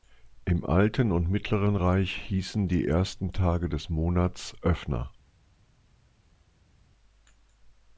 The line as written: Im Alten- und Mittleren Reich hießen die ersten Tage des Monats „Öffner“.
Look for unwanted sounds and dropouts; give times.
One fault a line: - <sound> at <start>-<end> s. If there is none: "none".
none